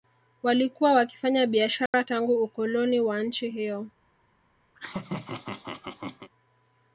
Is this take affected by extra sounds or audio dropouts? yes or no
yes